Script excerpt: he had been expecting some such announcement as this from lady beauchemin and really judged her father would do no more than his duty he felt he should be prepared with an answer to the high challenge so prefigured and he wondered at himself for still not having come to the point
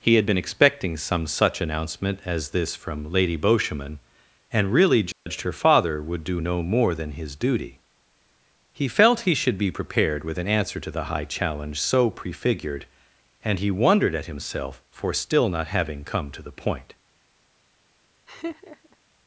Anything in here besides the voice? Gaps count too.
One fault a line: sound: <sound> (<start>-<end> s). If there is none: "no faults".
sound: dropout (5.1-5.3 s)
sound: laugh (18.3-19.0 s)